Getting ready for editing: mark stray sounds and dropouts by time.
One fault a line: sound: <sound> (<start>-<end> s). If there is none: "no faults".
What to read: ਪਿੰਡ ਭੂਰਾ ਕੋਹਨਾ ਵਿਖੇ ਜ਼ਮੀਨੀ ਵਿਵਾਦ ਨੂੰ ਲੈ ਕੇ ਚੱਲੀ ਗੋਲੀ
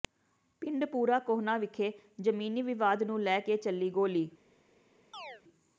sound: chirp (5.1-5.4 s)